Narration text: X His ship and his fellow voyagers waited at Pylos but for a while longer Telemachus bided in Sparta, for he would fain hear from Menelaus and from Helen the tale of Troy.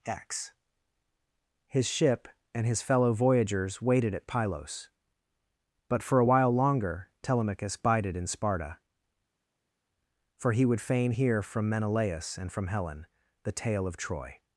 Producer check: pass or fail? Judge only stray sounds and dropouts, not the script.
pass